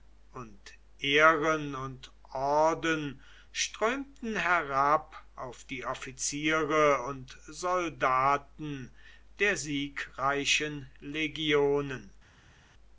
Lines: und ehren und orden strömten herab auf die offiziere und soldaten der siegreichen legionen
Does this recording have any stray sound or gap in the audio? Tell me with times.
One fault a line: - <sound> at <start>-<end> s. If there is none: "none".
none